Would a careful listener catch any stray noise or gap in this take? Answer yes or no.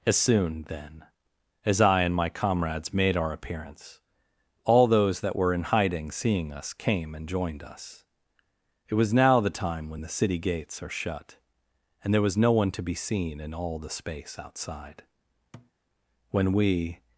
yes